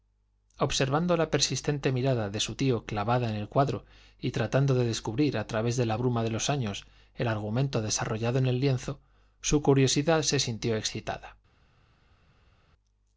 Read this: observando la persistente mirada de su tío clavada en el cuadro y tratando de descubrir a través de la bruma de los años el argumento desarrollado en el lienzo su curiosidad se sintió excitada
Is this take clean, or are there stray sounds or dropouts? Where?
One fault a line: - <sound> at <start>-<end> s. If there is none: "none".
none